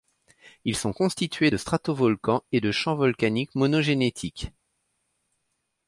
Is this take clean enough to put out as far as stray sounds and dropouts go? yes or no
yes